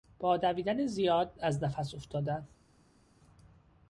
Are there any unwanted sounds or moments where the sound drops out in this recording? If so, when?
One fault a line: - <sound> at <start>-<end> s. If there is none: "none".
none